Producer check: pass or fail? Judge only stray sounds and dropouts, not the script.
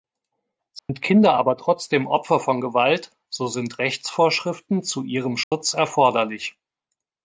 fail